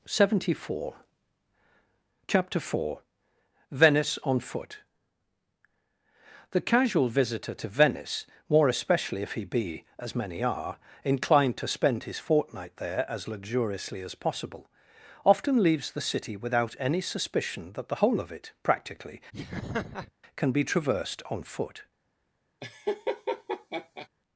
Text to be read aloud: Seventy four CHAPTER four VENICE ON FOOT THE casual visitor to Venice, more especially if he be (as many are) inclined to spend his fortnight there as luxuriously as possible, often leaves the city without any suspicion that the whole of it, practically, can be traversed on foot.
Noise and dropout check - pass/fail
fail